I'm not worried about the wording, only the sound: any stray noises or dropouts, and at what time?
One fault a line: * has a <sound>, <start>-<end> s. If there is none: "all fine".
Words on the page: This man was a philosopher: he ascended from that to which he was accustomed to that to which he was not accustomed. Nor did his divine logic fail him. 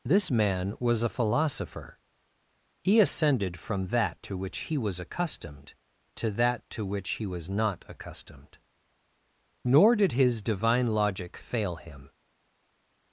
all fine